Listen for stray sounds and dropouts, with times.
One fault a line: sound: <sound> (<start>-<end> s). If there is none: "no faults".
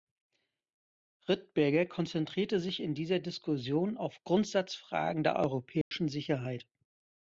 sound: dropout (5.8-5.9 s)